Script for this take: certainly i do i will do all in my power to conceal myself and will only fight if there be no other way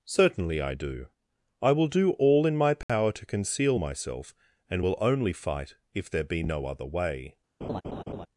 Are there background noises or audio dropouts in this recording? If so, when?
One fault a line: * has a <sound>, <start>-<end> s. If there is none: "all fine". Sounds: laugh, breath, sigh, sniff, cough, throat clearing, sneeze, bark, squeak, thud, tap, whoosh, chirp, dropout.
* has a dropout, 2.8-2.9 s
* has a laugh, 7.6-8.3 s